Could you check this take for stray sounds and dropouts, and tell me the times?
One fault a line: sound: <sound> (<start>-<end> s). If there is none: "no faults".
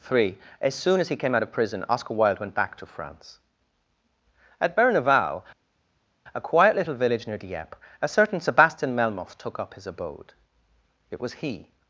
no faults